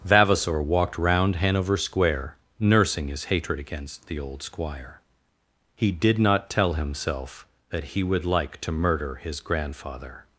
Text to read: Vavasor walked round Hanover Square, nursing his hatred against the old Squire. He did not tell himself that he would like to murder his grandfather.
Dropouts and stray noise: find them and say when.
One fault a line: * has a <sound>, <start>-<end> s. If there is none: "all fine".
all fine